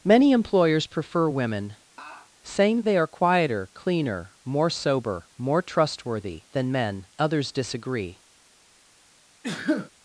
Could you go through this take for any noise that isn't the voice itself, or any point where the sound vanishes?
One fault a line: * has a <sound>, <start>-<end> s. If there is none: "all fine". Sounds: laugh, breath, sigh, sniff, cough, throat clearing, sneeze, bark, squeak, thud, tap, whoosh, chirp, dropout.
* has a laugh, 2.0-2.3 s
* has a sneeze, 9.4-9.9 s